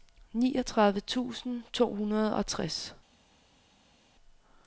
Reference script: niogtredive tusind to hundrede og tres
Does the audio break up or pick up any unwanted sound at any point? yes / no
no